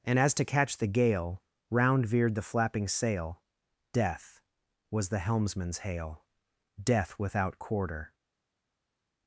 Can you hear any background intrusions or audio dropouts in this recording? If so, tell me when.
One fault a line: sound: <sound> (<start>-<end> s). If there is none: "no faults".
no faults